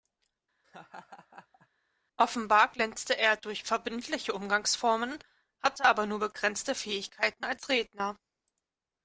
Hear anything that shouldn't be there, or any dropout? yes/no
yes